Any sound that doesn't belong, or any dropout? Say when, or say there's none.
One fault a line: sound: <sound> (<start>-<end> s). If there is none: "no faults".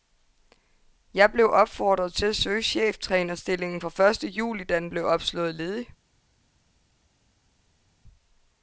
no faults